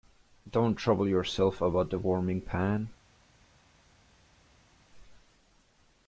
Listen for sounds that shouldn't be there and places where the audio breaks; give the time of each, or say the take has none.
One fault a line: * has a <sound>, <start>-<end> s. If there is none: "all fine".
all fine